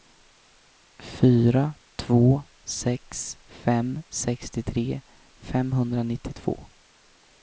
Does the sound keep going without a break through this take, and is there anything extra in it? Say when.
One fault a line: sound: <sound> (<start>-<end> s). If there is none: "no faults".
no faults